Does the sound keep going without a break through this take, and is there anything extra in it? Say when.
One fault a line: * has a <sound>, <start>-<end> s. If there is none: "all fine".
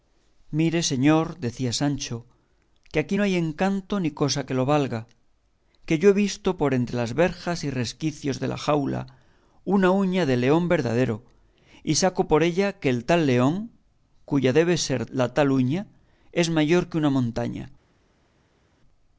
all fine